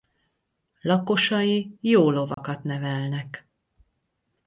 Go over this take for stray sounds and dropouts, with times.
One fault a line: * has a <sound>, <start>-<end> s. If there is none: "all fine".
* has a dropout, 2.3-2.4 s